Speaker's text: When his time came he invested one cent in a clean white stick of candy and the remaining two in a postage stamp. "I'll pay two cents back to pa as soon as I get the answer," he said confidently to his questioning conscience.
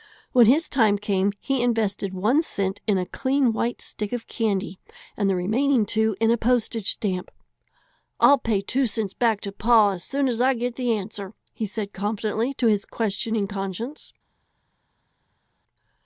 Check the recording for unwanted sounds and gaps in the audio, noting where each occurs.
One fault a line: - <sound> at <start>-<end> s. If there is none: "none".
none